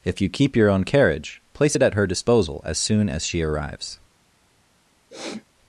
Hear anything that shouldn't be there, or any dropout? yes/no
yes